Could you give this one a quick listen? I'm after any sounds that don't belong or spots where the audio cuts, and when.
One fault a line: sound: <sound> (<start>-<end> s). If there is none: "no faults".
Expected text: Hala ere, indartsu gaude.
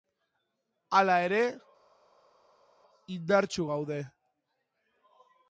no faults